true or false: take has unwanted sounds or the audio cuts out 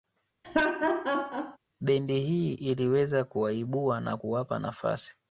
true